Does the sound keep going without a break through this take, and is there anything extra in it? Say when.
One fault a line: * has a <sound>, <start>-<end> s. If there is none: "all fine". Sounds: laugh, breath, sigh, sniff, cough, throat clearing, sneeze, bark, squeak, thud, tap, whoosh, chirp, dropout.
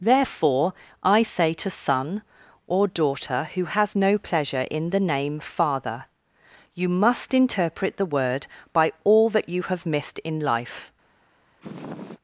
* has a sniff, 11.6-12.2 s